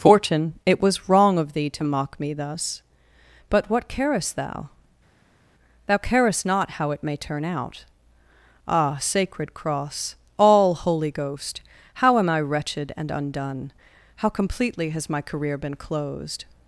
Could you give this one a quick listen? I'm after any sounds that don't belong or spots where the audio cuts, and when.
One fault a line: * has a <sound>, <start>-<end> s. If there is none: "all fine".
all fine